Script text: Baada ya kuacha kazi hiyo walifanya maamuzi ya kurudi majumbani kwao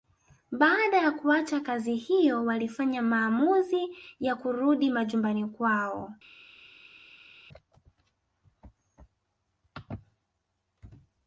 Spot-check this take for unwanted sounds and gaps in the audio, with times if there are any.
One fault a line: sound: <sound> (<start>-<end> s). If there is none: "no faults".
no faults